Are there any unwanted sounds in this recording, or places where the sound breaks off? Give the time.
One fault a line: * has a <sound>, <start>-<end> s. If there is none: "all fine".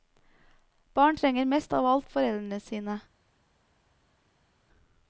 all fine